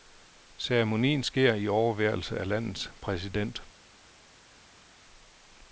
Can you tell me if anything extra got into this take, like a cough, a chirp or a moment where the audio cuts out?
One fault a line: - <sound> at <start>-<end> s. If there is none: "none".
none